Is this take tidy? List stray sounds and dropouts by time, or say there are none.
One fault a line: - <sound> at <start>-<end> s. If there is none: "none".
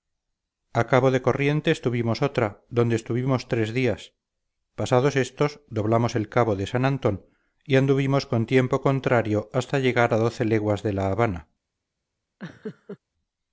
- laugh at 12.4-13.0 s